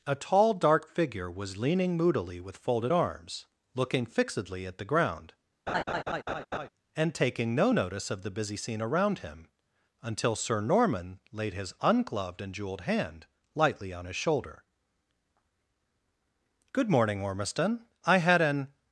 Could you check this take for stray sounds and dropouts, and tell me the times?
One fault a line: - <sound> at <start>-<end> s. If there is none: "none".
- laugh at 5.7-6.7 s